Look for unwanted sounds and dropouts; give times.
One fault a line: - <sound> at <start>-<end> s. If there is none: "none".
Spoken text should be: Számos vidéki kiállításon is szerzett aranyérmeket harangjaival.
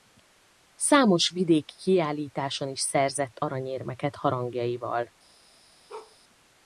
- bark at 5.9-6.2 s